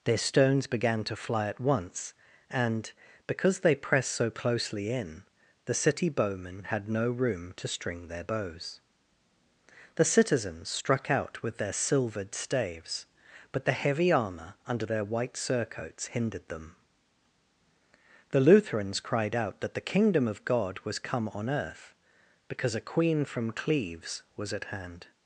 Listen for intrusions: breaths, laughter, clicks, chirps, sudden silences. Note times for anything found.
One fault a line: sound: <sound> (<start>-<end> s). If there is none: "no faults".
no faults